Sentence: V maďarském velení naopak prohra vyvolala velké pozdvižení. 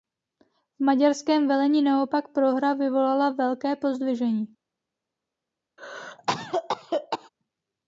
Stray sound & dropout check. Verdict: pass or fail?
fail